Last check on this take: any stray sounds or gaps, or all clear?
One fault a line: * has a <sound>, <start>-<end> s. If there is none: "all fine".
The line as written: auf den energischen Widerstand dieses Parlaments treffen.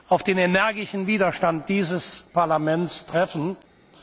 all fine